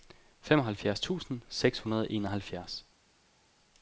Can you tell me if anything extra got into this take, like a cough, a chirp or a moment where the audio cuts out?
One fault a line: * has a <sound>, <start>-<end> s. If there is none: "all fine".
all fine